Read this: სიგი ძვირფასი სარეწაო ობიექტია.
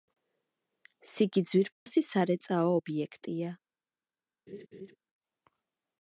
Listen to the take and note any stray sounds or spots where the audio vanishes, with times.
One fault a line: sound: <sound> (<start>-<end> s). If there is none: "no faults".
sound: dropout (1.7-1.9 s)
sound: laugh (4.5-5.0 s)